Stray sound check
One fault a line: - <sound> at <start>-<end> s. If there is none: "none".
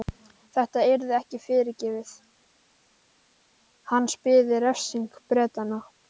none